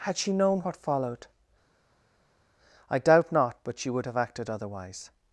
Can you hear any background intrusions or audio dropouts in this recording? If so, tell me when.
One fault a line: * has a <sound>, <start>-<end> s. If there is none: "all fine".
all fine